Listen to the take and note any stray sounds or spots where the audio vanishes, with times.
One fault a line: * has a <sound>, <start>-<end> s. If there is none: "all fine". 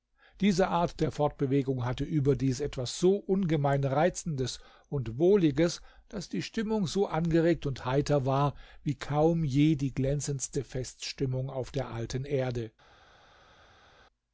all fine